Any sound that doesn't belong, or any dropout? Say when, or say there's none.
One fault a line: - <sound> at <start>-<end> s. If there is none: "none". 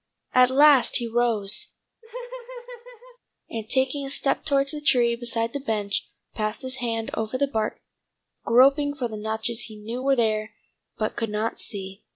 - laugh at 2.0-3.2 s